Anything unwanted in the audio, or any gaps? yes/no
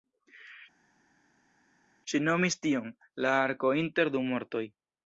no